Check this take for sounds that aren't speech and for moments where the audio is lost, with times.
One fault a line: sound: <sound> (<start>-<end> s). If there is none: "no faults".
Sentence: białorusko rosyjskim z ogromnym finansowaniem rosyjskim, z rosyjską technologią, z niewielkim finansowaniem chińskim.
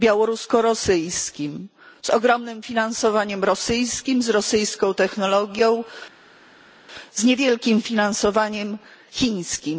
no faults